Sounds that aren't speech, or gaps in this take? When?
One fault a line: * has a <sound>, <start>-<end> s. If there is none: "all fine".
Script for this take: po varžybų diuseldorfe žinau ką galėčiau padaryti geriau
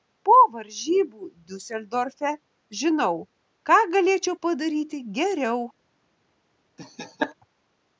* has a laugh, 6.8-7.3 s